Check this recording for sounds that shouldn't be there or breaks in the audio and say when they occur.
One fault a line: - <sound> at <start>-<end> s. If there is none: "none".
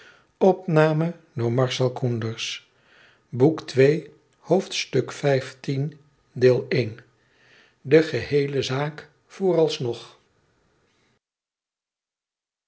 none